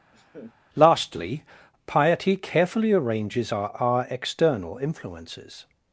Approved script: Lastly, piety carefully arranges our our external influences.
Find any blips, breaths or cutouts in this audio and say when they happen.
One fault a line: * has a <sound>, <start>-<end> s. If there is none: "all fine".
* has a laugh, 0.1-0.5 s